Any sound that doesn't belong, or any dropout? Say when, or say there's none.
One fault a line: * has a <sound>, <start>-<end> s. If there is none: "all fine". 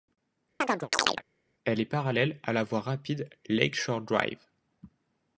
* has a chirp, 0.6-1.2 s